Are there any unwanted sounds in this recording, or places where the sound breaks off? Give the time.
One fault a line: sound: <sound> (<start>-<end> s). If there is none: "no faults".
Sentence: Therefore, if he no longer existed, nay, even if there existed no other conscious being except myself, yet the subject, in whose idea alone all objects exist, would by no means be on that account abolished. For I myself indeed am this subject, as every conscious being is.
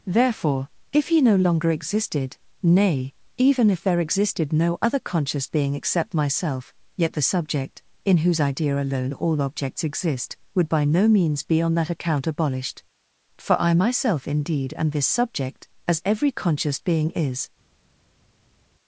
no faults